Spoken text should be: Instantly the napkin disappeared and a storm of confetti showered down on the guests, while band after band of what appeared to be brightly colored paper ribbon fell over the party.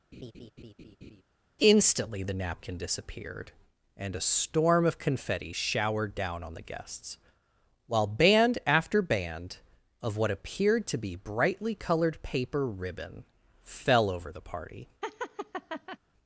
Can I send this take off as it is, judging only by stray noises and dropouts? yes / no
no